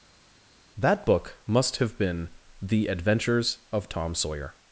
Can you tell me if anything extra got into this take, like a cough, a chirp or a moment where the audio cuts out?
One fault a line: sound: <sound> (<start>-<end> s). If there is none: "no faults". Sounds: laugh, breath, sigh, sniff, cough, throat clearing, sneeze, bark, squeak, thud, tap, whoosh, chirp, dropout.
no faults